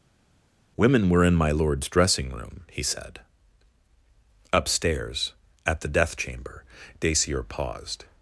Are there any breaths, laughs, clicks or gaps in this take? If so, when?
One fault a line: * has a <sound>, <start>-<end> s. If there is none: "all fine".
all fine